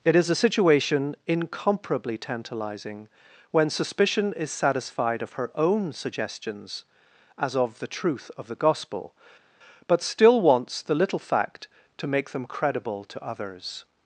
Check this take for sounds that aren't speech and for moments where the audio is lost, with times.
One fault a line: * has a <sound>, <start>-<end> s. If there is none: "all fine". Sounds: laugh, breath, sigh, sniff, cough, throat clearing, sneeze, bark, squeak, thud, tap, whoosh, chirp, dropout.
all fine